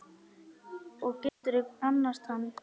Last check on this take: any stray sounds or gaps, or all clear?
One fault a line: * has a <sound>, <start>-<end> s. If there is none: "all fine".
* has a dropout, 1.3-1.4 s